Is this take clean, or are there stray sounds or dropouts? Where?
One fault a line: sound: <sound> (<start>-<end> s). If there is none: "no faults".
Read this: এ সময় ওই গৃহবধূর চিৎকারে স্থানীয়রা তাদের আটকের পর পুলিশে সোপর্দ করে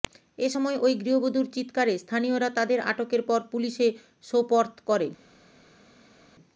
no faults